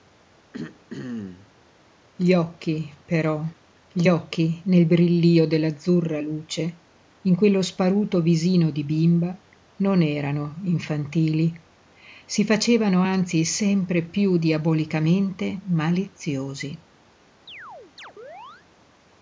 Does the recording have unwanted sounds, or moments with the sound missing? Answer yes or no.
yes